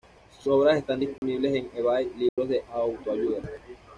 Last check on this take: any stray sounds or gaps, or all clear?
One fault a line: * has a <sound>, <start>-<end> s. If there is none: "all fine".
* has a dropout, 1.2-1.2 s
* has a dropout, 2.3-2.4 s